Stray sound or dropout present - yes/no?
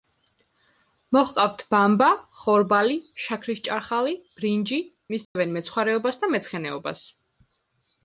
yes